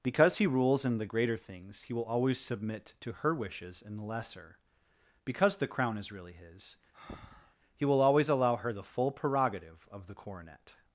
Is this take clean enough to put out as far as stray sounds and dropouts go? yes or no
no